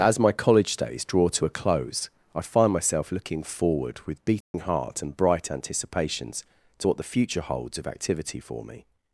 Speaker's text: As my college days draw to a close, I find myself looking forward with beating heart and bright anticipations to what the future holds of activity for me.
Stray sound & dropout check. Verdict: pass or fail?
fail